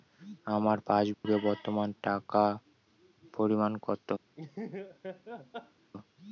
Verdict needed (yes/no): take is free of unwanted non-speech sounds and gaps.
no